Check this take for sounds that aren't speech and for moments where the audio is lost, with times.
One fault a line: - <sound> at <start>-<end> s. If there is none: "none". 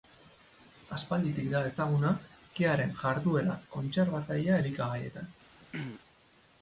- throat clearing at 5.6-6.0 s